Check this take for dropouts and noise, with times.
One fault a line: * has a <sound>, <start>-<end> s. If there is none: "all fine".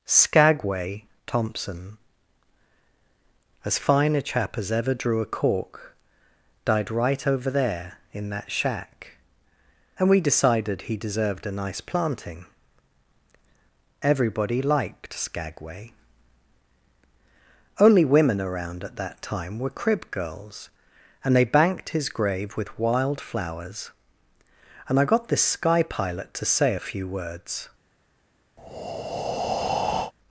* has a breath, 28.6-30.1 s